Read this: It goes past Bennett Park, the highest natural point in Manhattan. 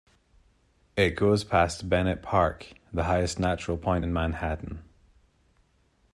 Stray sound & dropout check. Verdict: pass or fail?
pass